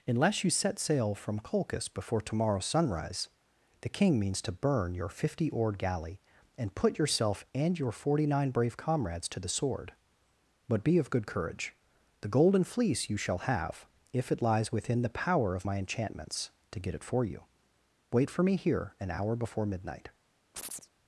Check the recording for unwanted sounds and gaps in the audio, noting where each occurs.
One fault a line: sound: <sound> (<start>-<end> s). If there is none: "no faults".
sound: chirp (20.5-20.9 s)